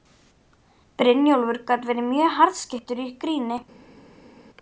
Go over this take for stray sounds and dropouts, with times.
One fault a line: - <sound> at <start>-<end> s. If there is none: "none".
none